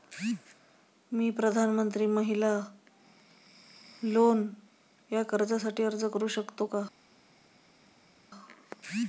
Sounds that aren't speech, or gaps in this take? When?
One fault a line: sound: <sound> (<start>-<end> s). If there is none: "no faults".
no faults